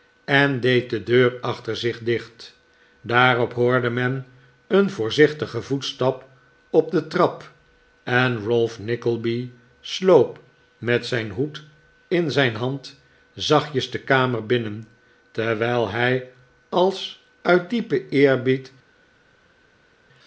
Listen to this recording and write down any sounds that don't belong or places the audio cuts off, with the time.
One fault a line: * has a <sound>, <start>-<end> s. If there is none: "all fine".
all fine